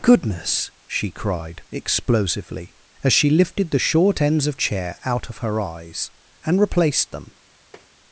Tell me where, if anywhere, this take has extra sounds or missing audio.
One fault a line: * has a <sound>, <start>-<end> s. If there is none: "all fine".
* has a tap, 7.7-7.9 s